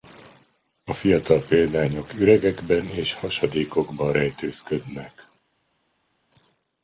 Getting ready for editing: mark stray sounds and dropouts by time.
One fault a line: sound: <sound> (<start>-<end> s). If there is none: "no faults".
no faults